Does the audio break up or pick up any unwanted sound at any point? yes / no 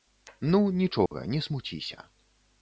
yes